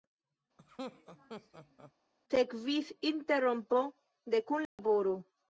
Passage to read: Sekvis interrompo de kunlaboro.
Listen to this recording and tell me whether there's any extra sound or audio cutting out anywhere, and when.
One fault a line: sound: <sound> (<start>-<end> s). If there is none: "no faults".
sound: laugh (0.6-1.9 s)
sound: dropout (4.7-4.8 s)